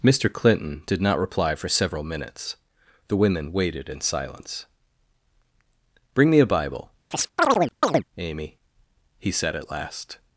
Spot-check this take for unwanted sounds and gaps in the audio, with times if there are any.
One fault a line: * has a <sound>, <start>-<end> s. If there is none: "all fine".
* has a chirp, 7.1-8.0 s